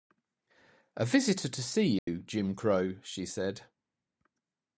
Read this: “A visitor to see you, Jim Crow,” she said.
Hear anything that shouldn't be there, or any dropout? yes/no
yes